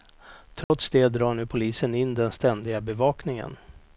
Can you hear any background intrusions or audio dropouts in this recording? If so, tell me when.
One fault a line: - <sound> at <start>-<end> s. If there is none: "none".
- dropout at 0.6-0.7 s